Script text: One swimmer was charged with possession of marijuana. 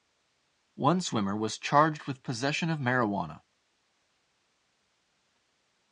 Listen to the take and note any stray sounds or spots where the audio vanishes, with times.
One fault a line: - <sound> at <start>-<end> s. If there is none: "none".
none